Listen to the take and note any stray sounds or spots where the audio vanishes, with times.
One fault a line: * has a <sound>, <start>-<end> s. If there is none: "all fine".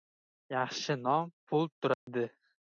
* has a dropout, 1.9-2.1 s